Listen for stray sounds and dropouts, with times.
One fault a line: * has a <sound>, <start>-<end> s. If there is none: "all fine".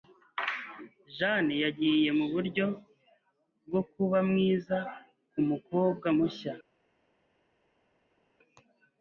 all fine